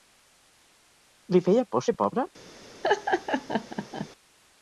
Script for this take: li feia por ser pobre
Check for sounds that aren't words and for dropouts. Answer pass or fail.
fail